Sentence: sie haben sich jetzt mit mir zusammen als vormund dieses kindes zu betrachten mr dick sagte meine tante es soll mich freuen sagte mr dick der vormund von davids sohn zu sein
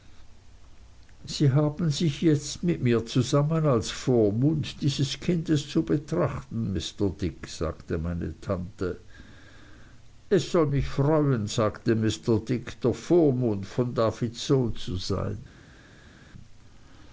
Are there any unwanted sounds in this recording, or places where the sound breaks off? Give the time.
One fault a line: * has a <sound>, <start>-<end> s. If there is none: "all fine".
all fine